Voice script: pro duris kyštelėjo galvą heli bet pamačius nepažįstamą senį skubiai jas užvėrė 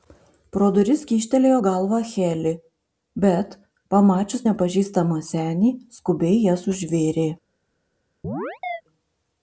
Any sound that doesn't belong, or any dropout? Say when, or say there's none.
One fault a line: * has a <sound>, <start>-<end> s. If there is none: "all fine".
* has a chirp, 8.2-8.8 s